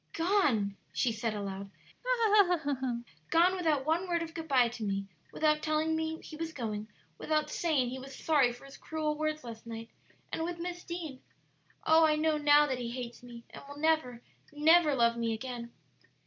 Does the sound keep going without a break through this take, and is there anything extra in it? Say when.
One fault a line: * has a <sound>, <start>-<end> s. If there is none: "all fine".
* has a laugh, 2.0-3.0 s